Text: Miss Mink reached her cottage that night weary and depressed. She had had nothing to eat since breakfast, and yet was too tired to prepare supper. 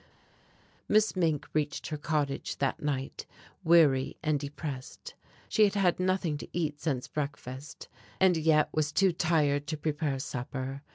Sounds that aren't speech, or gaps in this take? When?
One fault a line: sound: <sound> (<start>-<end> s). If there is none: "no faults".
no faults